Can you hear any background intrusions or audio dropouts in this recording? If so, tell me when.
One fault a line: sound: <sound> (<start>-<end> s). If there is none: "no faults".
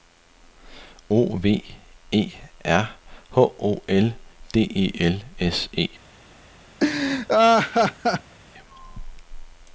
sound: laugh (6.8-8.3 s)